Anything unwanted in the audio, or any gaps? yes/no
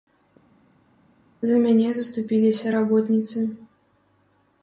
no